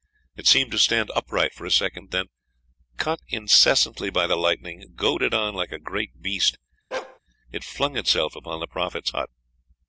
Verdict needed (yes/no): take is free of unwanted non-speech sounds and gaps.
no